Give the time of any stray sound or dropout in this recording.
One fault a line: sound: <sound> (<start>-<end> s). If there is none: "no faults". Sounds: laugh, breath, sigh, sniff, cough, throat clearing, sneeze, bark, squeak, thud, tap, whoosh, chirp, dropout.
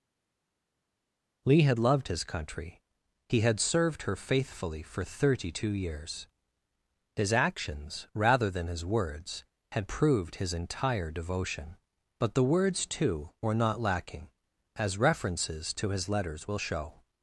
no faults